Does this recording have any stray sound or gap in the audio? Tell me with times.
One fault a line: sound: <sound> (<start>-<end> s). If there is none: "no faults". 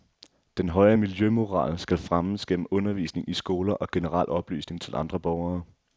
no faults